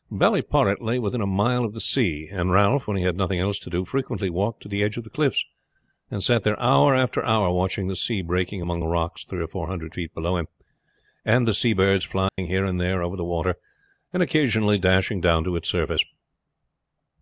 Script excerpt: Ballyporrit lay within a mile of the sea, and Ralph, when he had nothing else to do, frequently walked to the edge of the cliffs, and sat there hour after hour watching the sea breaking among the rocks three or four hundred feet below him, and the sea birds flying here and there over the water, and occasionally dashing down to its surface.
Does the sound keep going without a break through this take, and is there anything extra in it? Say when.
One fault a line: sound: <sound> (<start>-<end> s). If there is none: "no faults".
sound: dropout (12.3-12.4 s)